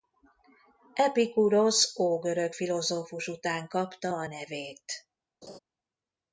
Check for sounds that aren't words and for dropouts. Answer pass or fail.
fail